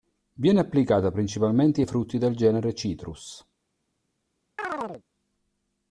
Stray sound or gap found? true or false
true